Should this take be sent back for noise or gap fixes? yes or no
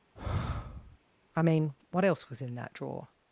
yes